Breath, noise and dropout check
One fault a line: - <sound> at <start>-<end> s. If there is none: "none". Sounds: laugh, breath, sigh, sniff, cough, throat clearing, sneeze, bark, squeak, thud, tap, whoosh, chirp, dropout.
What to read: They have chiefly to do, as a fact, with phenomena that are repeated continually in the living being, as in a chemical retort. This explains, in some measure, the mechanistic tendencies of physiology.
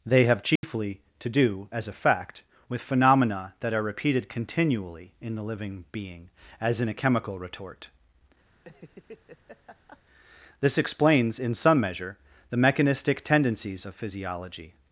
- dropout at 0.6-0.6 s
- laugh at 8.5-10.0 s